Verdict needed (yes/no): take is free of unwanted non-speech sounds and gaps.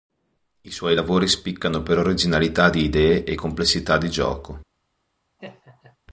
no